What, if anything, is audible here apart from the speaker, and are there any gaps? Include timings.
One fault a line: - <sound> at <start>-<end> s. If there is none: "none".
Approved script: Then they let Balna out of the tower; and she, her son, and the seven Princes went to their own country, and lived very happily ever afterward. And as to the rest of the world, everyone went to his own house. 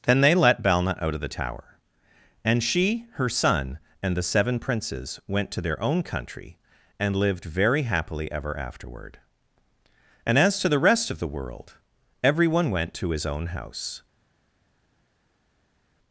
none